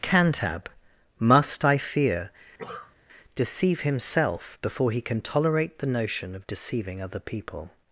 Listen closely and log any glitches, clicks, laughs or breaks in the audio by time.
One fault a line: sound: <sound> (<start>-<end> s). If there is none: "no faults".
sound: cough (2.6-3.0 s)